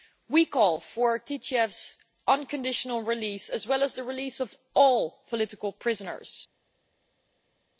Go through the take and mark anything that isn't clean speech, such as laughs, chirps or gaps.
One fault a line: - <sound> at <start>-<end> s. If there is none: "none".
none